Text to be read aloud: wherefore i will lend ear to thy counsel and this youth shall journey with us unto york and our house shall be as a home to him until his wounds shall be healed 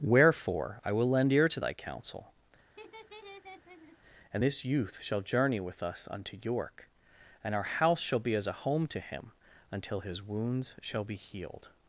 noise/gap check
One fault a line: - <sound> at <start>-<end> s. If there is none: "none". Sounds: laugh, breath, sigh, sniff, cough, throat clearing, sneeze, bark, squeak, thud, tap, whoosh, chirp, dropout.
- laugh at 2.8-4.0 s